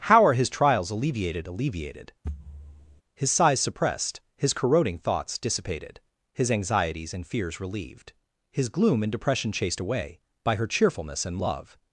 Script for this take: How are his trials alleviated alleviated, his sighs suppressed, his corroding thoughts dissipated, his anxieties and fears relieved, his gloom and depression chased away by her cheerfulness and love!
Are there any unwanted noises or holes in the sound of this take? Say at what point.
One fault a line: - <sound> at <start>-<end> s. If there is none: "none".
- thud at 2.2-3.0 s